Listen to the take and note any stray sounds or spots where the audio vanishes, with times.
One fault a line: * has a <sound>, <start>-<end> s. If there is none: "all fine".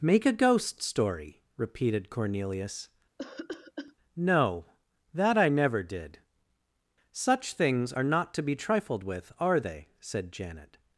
* has a cough, 3.2-3.9 s